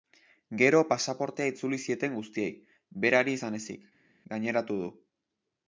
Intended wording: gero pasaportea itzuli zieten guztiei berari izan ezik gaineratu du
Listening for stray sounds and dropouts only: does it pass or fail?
pass